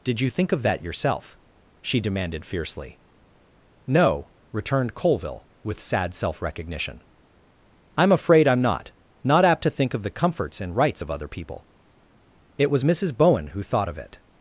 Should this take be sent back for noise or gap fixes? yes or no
no